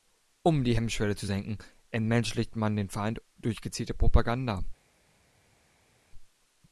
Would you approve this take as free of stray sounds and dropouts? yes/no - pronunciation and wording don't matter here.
yes